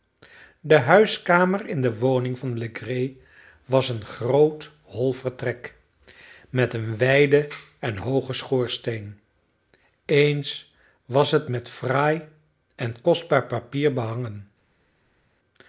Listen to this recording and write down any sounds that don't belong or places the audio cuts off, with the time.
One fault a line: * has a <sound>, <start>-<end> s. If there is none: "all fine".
all fine